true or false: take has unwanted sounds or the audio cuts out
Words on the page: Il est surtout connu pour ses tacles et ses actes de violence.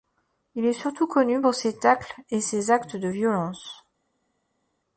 false